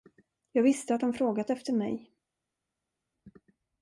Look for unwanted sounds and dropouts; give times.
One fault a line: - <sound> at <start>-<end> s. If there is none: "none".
none